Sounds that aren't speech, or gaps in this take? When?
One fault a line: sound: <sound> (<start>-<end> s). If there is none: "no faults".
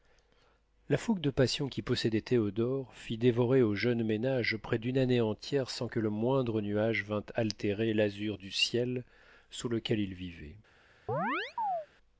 sound: chirp (11.1-11.9 s)